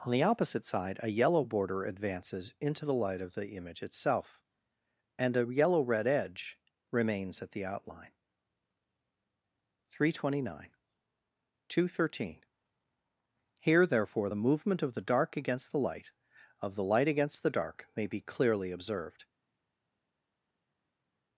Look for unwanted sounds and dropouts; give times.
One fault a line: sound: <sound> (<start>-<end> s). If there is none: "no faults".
no faults